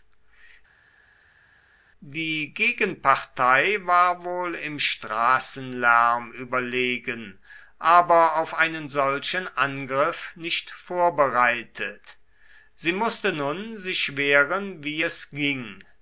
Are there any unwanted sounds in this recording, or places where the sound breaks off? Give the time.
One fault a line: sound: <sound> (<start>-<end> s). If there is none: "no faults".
no faults